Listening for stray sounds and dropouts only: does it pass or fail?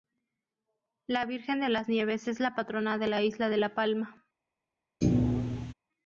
fail